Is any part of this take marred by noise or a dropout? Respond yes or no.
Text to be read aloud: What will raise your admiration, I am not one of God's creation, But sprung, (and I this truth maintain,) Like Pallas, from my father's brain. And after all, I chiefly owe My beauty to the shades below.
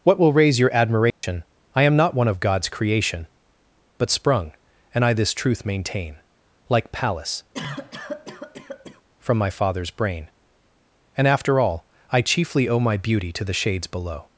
yes